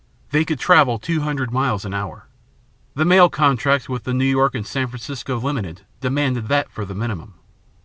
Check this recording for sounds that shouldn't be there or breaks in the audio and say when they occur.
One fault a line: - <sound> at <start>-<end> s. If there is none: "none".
none